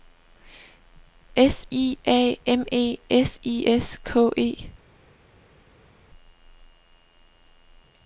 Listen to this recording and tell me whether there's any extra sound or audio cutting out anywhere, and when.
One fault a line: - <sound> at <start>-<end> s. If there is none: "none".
none